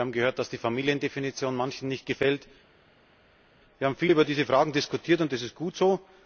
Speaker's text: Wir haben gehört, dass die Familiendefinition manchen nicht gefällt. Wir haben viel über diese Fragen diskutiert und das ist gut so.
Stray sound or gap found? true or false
false